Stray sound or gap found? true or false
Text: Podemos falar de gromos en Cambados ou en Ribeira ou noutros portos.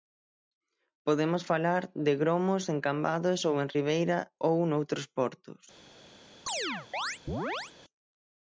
true